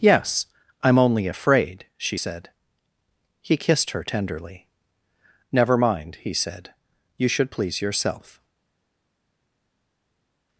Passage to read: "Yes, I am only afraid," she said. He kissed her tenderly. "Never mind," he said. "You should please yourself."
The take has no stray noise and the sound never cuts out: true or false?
true